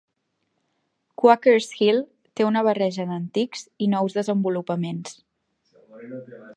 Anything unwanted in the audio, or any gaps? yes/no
no